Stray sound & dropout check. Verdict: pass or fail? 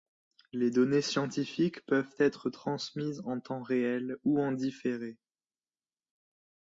pass